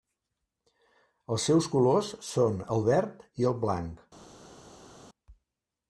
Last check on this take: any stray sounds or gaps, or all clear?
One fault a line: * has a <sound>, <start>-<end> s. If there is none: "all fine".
all fine